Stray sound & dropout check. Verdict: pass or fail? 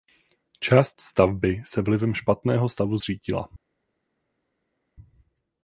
pass